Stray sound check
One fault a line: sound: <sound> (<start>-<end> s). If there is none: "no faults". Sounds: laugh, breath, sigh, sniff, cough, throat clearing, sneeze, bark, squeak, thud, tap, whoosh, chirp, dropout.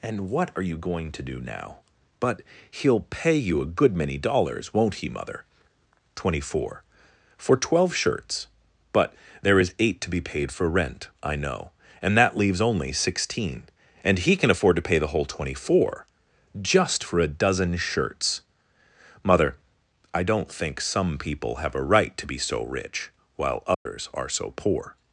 sound: dropout (23.7-23.9 s)